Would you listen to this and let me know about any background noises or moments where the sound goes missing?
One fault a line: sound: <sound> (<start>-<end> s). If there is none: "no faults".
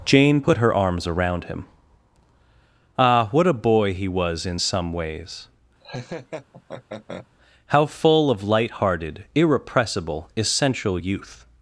sound: laugh (5.8-7.3 s)